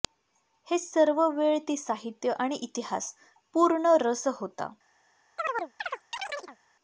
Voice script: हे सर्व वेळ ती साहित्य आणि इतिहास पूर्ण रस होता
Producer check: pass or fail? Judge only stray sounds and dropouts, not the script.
fail